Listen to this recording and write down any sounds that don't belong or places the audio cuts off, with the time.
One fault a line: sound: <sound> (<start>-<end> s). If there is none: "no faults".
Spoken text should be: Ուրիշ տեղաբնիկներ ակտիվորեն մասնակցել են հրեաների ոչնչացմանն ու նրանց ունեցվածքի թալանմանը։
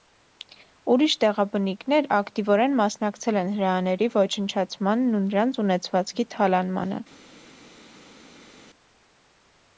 no faults